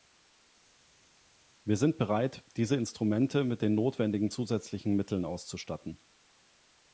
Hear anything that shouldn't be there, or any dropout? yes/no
no